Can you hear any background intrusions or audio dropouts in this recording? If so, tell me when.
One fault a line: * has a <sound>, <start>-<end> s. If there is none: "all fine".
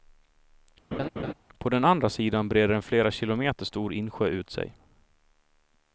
* has a laugh, 0.9-1.3 s